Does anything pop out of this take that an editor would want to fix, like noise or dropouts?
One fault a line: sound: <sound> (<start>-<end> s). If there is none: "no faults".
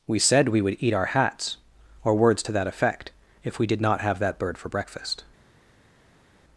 no faults